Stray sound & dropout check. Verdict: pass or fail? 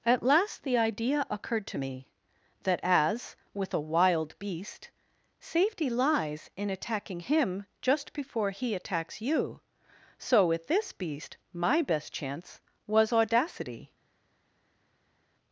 pass